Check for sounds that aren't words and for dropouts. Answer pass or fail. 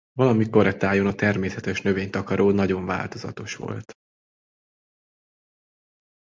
pass